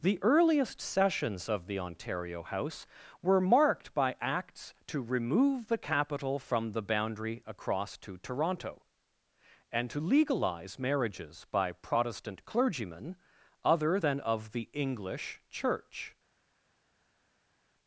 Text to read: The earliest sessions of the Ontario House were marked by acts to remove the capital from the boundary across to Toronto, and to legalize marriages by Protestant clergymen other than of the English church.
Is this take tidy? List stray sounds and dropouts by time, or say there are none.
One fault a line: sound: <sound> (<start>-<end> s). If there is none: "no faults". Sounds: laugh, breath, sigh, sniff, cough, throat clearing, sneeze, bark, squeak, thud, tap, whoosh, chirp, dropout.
no faults